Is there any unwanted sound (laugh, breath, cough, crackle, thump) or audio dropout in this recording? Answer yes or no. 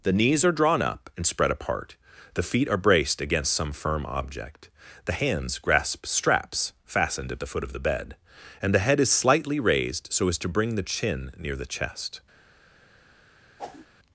yes